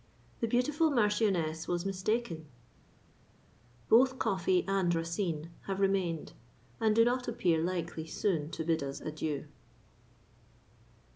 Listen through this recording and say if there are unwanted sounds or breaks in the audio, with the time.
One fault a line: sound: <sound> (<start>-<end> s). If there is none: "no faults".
no faults